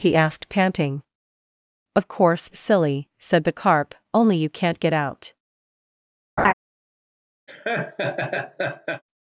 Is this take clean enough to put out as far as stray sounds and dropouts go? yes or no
no